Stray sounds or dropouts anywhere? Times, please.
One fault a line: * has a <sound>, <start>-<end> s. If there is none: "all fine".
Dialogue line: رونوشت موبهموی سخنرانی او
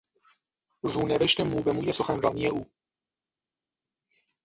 all fine